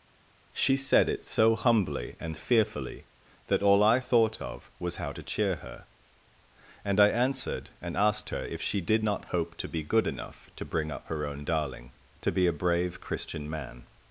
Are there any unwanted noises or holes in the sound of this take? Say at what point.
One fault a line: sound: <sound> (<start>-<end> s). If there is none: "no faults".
no faults